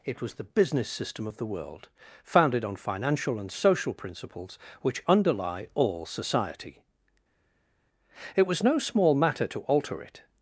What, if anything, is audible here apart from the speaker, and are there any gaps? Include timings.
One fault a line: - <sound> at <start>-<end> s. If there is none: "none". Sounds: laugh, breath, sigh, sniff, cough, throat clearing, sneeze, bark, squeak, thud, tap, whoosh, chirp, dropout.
none